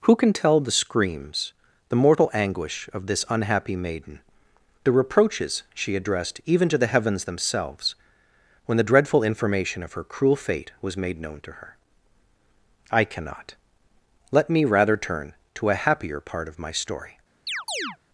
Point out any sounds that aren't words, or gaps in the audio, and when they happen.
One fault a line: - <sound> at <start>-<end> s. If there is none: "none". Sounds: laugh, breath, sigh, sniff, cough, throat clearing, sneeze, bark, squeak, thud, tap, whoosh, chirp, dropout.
- chirp at 17.5-18.0 s